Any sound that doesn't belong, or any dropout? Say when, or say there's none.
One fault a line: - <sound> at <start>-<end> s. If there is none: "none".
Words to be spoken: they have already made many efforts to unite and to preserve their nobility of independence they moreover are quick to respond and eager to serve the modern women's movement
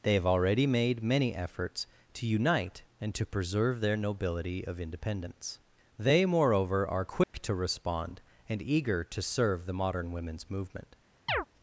- dropout at 7.2-7.3 s
- chirp at 11.3-11.5 s